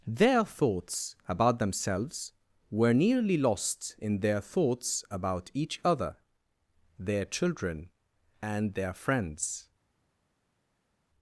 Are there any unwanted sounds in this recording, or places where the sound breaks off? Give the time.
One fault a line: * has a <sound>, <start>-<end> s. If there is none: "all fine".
all fine